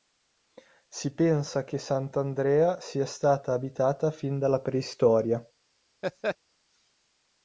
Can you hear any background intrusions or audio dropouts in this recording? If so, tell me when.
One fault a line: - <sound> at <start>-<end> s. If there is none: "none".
- laugh at 6.0-6.4 s